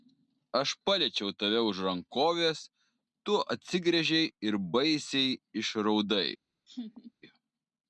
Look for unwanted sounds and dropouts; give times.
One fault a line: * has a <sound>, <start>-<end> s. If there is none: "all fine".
* has a laugh, 6.7-7.1 s